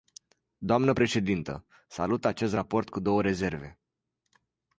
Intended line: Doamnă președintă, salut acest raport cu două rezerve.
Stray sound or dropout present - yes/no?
no